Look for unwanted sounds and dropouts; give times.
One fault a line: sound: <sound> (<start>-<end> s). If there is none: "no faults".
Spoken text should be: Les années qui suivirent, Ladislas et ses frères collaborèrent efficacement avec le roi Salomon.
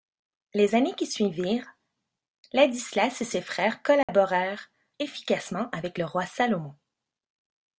sound: dropout (4.0-4.1 s)